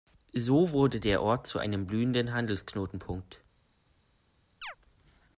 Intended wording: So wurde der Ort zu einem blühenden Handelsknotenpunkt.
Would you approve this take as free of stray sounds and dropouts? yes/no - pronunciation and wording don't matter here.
no